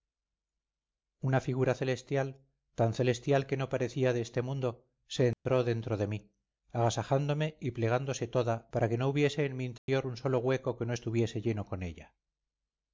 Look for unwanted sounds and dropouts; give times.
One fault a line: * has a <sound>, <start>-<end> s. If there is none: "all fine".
* has a dropout, 5.3-5.5 s
* has a dropout, 9.8-9.9 s